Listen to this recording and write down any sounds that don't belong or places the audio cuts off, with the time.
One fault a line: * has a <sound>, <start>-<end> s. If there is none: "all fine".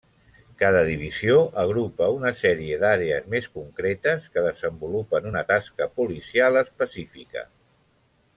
all fine